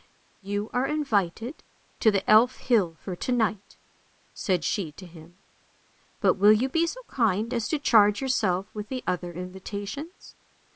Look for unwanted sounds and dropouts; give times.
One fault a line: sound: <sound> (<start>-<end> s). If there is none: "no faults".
no faults